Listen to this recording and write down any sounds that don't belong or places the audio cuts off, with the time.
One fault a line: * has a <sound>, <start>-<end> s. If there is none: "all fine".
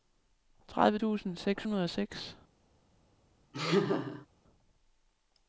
* has a laugh, 3.5-4.3 s